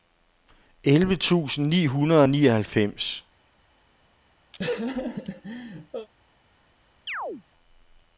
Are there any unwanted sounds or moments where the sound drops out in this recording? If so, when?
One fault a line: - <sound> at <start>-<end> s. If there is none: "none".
- laugh at 4.5-6.1 s
- chirp at 7.1-7.4 s